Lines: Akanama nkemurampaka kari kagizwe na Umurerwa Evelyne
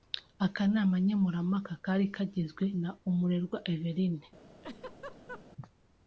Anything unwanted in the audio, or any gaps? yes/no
yes